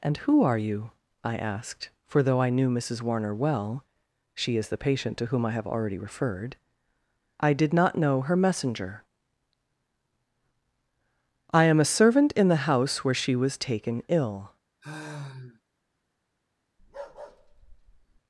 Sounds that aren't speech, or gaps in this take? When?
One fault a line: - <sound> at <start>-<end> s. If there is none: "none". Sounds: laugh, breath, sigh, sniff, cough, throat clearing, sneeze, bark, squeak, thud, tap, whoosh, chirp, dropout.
- sigh at 14.8-15.6 s
- bark at 16.8-18.2 s